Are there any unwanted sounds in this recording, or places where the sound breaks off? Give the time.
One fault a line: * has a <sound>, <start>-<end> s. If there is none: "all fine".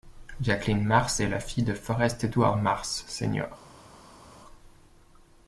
all fine